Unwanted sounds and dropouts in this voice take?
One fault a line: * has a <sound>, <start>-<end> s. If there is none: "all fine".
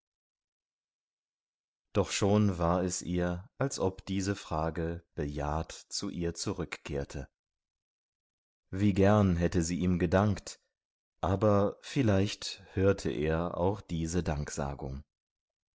all fine